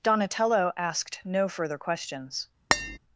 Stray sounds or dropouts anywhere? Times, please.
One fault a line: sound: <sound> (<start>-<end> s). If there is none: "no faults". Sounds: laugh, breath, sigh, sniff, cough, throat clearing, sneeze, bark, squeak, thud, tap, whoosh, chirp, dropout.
sound: tap (2.7-3.0 s)